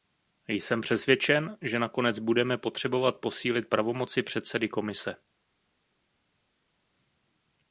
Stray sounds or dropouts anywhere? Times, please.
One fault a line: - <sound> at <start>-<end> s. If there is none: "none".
none